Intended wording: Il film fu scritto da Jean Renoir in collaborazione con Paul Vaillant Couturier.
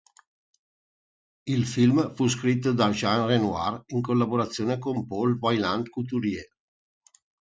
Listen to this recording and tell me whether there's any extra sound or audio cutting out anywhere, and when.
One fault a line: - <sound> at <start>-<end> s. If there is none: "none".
none